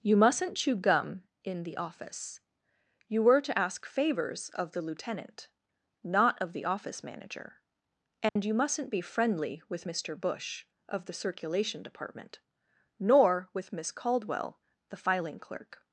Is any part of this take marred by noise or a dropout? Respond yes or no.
yes